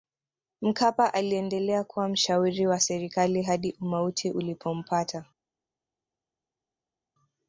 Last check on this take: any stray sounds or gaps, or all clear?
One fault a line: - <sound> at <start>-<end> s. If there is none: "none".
none